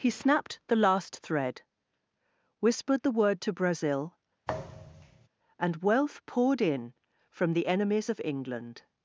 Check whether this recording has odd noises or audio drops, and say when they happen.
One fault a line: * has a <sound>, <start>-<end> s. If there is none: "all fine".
* has a thud, 4.5-5.3 s